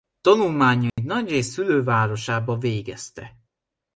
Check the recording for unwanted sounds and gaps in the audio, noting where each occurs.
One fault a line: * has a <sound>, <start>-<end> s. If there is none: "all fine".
* has a dropout, 0.9-1.0 s